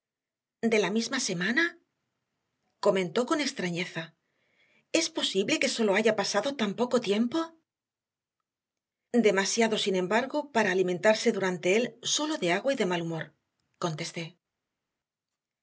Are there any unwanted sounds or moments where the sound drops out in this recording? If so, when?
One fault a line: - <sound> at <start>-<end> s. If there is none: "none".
none